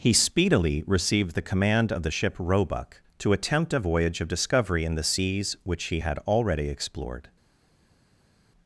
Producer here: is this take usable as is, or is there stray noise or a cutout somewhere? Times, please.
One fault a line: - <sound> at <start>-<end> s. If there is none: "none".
none